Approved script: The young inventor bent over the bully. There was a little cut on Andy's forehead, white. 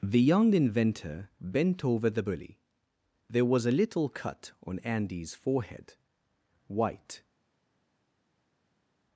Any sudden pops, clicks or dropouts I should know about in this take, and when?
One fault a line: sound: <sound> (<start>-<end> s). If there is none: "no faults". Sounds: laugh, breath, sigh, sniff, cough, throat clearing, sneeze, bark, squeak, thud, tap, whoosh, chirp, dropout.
no faults